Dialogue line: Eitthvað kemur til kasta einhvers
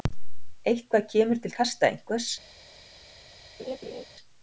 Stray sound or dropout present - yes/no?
yes